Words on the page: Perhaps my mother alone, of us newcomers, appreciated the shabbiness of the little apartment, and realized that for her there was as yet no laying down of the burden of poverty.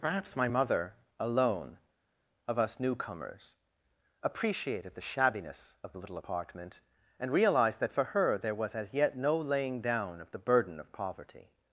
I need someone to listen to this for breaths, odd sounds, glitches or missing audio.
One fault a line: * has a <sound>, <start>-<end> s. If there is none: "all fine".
all fine